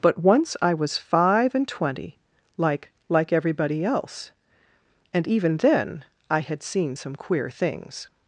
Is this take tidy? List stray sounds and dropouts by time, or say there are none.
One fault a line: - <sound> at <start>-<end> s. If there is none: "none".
none